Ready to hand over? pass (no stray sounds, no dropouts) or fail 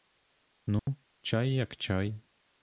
fail